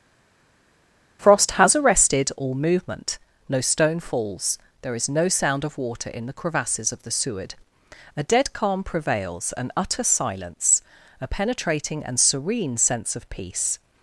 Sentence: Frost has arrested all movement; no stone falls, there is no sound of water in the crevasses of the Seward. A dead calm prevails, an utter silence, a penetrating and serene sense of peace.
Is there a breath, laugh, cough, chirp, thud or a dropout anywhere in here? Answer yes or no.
no